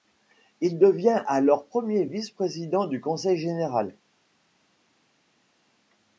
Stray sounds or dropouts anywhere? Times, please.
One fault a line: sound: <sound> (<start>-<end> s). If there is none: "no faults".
no faults